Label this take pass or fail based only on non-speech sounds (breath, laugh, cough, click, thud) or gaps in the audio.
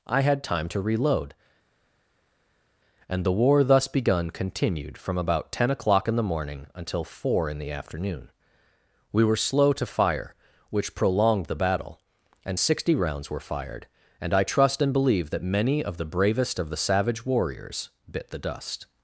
pass